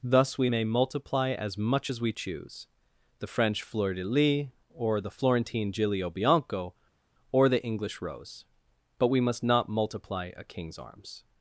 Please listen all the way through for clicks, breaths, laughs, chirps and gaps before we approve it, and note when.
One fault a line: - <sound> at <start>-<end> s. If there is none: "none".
none